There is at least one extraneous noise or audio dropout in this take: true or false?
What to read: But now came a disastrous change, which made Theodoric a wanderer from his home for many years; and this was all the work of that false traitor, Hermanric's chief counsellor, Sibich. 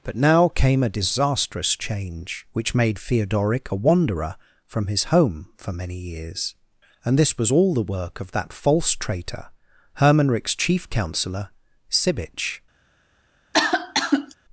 true